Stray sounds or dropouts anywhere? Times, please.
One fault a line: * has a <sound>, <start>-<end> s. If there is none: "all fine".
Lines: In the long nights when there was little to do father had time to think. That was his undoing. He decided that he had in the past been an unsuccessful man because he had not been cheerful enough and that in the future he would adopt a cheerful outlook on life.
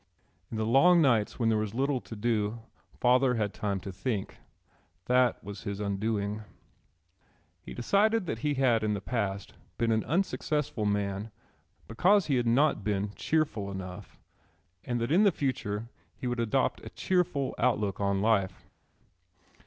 all fine